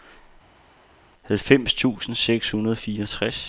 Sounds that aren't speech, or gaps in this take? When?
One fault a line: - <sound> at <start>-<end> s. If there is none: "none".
none